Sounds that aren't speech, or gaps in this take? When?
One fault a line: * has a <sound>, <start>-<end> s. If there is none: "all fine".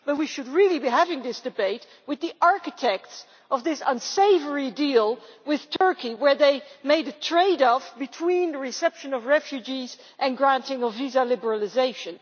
* has a dropout, 5.8-5.8 s